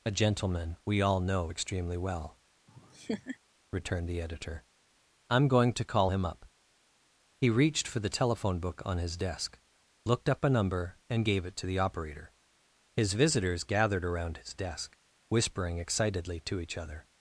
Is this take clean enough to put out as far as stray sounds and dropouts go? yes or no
no